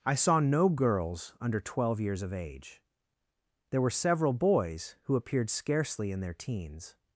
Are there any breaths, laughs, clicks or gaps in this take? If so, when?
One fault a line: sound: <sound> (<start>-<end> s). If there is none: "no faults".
no faults